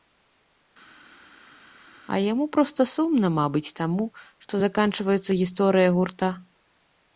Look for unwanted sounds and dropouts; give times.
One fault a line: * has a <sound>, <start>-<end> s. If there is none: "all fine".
all fine